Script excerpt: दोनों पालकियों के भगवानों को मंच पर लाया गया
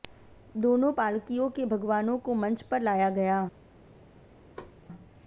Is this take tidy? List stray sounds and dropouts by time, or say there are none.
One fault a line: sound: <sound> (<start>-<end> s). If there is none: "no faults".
sound: thud (4.6-4.8 s)